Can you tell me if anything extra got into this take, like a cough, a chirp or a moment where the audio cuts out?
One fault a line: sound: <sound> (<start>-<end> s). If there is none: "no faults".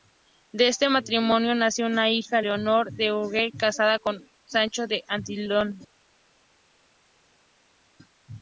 no faults